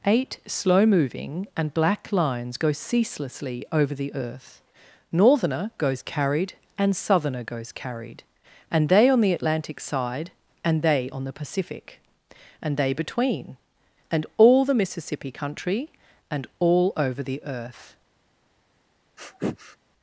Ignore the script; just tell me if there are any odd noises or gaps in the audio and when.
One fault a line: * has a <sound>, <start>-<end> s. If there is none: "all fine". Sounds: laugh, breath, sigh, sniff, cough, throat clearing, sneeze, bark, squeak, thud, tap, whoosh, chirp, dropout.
* has a sniff, 19.2-19.8 s